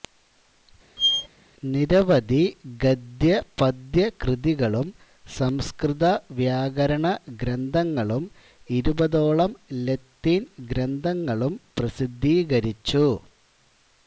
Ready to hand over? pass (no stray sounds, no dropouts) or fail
fail